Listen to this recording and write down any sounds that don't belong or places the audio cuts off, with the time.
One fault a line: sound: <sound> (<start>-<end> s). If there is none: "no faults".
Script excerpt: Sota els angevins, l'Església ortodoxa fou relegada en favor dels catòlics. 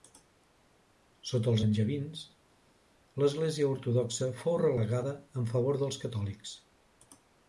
no faults